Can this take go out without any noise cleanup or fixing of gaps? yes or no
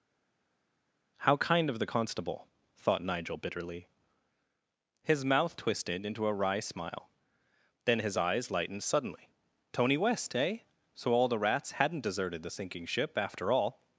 yes